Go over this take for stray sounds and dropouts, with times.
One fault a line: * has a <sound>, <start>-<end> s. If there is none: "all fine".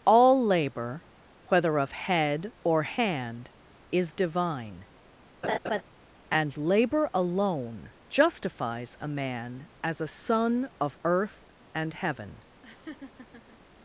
* has a laugh, 5.4-5.8 s
* has a laugh, 12.6-13.6 s